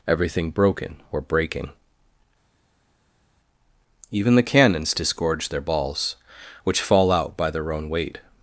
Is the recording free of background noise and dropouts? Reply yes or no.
yes